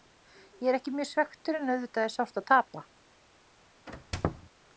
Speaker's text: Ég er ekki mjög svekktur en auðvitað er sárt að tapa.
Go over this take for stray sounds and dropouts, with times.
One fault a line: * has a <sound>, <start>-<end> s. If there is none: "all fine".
* has a squeak, 3.9-4.5 s